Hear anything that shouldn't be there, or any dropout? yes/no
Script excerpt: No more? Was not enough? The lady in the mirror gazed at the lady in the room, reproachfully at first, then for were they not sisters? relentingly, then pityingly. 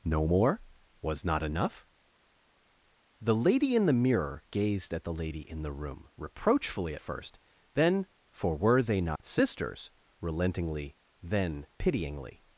yes